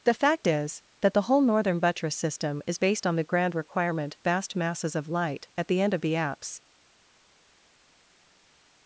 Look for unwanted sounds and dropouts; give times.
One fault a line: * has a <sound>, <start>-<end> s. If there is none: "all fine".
all fine